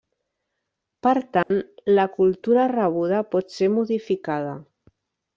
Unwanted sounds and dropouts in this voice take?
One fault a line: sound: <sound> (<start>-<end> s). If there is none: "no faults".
sound: dropout (1.4-1.5 s)